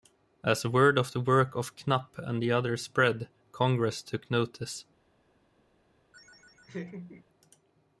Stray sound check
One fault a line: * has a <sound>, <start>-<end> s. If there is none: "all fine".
* has a laugh, 6.1-7.2 s